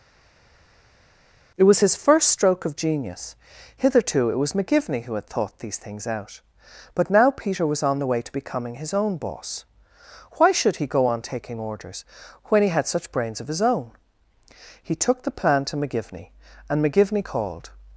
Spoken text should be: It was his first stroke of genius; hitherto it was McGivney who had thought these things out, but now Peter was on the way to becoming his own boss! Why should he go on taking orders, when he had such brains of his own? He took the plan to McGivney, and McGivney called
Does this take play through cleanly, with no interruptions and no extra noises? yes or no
yes